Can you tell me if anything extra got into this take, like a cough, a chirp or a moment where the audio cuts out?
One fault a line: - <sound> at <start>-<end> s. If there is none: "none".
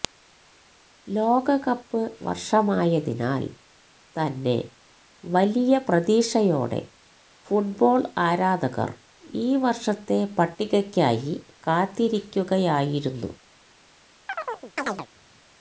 - chirp at 14.3-15.1 s